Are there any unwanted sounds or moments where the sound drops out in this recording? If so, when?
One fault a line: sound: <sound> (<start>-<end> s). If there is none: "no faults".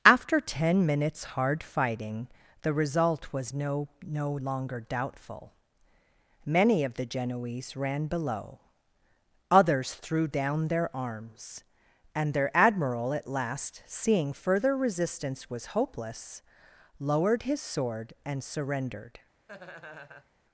sound: laugh (19.5-20.3 s)